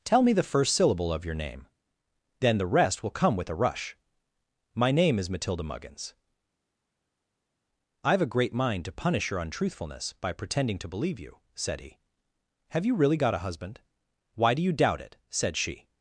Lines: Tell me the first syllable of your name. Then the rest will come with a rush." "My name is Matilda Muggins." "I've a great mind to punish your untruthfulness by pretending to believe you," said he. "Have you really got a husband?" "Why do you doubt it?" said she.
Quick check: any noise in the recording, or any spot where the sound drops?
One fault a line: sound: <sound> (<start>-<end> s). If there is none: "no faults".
no faults